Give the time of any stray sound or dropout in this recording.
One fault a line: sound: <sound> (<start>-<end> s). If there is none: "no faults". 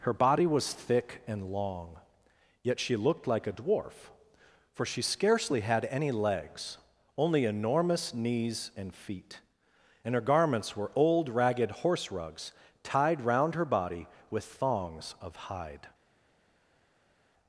no faults